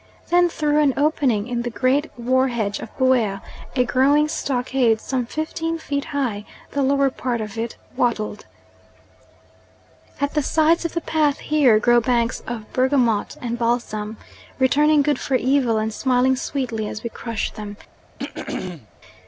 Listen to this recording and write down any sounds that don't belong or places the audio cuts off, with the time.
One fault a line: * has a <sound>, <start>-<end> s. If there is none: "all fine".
* has a throat clearing, 18.2-18.9 s